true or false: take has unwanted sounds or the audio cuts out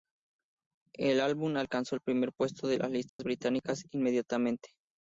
true